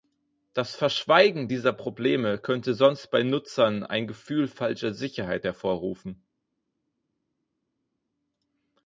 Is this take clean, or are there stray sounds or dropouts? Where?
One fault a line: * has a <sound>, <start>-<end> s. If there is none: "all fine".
all fine